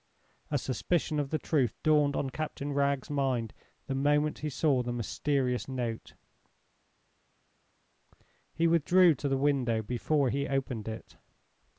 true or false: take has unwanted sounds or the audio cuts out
false